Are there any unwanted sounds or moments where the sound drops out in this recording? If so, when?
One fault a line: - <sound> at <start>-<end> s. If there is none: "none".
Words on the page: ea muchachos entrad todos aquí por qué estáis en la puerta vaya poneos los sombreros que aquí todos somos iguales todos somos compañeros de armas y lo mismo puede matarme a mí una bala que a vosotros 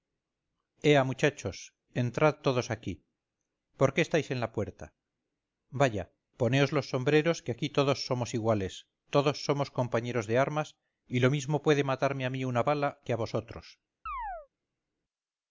- chirp at 14.1-14.5 s